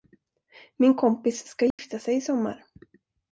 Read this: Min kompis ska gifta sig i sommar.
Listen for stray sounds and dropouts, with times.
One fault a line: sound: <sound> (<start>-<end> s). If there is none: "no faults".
sound: dropout (1.7-1.8 s)